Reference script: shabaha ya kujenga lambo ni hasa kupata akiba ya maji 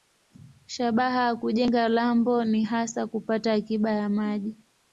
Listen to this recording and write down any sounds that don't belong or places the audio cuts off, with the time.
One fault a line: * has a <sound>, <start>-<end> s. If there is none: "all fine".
all fine